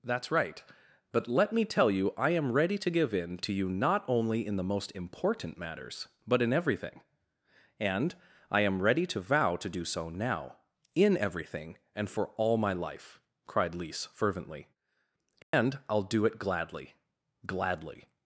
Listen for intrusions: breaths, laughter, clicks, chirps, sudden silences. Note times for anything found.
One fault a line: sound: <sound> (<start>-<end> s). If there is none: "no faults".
sound: dropout (15.4-15.5 s)